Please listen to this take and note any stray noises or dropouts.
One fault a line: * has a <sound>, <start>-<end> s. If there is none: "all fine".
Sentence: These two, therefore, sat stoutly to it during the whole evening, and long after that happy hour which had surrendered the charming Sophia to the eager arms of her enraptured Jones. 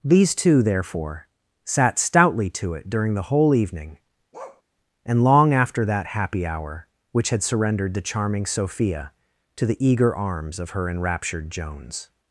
* has a bark, 4.3-4.6 s